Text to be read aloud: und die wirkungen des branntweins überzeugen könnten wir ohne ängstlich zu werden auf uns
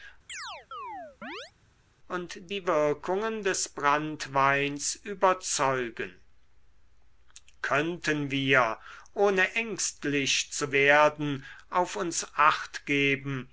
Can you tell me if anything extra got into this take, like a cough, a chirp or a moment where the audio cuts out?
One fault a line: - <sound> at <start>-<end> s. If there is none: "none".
- chirp at 0.3-1.5 s